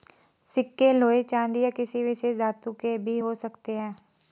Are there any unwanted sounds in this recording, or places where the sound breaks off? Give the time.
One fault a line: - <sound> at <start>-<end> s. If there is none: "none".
none